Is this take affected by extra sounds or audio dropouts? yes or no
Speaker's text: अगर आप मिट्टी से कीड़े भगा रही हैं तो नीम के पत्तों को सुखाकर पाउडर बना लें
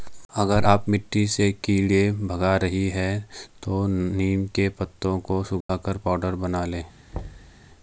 yes